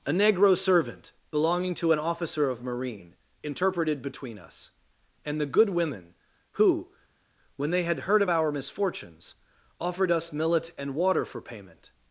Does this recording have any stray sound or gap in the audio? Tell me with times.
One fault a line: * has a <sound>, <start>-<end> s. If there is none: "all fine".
all fine